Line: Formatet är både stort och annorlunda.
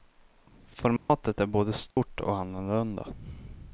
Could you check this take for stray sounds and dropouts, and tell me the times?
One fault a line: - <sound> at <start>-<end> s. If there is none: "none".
- dropout at 1.0-1.1 s
- dropout at 1.9-2.0 s